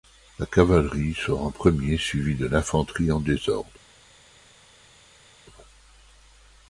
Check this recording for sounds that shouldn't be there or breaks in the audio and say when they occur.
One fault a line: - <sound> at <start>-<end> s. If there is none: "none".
none